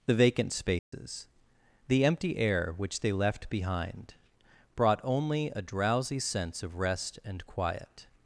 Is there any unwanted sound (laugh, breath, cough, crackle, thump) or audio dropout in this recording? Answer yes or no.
yes